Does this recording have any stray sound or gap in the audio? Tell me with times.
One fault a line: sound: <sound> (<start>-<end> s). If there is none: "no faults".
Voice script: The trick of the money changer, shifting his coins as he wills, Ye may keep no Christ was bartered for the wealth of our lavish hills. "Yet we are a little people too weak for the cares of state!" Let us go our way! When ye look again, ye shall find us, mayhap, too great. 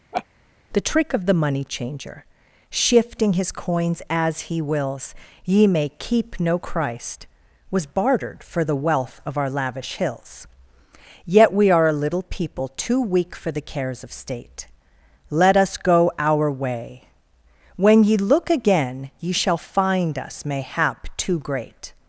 sound: laugh (0.1-0.3 s)